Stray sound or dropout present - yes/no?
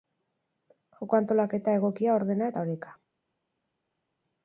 no